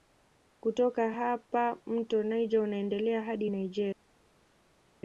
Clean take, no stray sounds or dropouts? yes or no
yes